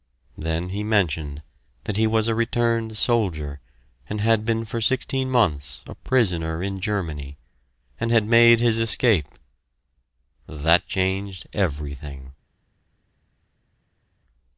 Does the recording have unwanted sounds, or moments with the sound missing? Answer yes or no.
no